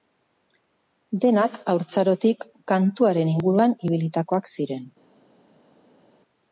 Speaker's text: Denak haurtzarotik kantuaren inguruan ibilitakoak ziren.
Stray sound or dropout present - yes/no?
no